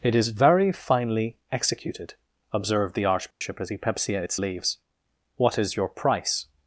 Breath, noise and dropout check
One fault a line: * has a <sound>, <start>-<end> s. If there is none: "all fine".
* has a dropout, 3.3-3.4 s